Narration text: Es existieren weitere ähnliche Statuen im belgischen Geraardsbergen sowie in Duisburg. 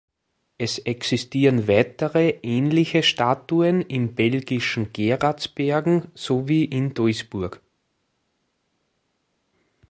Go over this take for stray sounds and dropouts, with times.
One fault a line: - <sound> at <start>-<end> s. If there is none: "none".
none